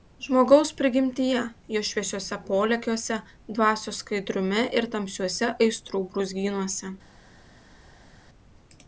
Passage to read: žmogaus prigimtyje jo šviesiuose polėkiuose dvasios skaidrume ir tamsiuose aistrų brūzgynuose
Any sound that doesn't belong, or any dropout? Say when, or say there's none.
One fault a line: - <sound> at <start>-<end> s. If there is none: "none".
none